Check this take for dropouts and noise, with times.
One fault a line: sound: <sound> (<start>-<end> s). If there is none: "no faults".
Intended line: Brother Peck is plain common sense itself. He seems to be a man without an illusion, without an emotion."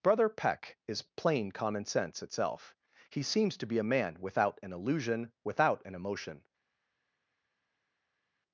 no faults